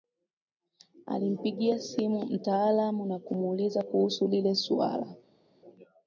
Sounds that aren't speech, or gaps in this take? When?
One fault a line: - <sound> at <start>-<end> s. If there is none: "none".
none